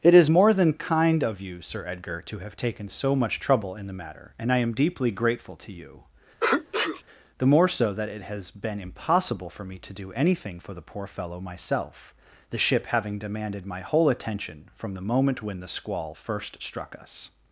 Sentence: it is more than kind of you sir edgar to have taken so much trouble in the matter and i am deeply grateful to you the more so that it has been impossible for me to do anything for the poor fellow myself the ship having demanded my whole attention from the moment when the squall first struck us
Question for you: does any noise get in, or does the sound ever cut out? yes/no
yes